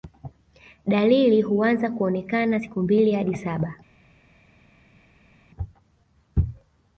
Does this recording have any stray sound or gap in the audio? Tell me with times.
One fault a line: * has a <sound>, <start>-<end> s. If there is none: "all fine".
all fine